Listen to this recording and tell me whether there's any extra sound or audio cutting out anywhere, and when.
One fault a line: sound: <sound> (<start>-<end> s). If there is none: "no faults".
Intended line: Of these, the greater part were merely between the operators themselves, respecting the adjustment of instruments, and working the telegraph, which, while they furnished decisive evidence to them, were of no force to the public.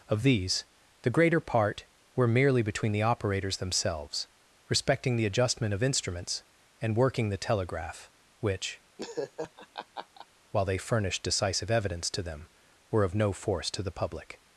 sound: laugh (9.0-10.3 s)